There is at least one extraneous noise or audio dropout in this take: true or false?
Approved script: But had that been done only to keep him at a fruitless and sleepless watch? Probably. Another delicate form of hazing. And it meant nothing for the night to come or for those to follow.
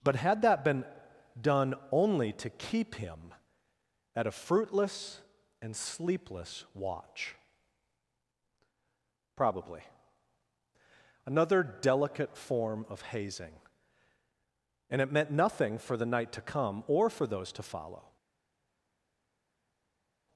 false